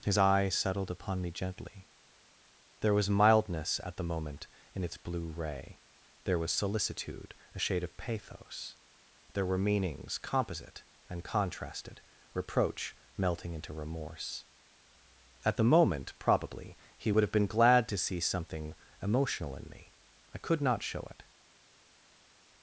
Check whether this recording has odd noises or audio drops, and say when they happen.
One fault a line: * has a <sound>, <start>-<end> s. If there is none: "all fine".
all fine